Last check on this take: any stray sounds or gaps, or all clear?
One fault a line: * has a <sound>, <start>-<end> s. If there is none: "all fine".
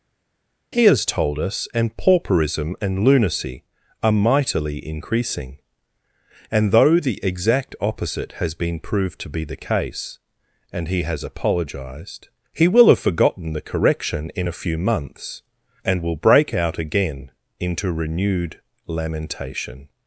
all fine